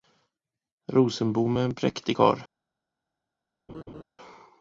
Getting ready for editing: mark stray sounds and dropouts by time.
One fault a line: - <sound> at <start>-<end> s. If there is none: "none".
- laugh at 3.7-4.0 s